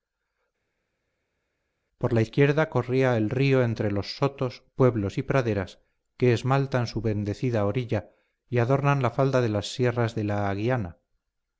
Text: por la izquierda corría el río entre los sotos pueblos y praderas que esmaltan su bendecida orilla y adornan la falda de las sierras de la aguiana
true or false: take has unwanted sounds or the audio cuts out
false